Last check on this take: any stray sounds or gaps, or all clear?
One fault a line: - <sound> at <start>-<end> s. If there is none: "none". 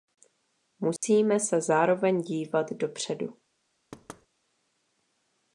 - dropout at 1.0-1.0 s
- thud at 3.9-4.3 s